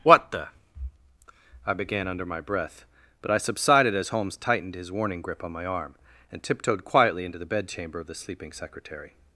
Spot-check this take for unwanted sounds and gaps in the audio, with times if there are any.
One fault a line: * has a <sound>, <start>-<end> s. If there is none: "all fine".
all fine